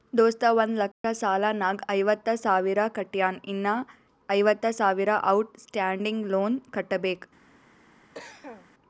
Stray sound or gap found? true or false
true